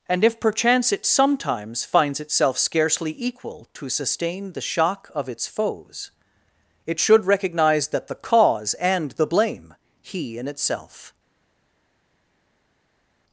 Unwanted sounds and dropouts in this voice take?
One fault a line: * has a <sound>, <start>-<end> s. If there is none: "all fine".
all fine